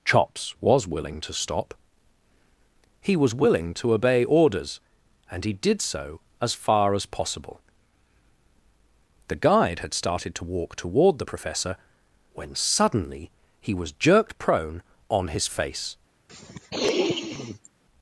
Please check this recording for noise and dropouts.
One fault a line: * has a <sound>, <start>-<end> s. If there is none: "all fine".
* has a sniff, 16.3-17.7 s